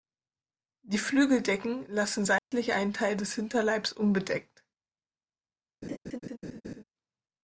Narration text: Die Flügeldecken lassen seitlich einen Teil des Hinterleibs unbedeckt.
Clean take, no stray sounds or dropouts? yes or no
no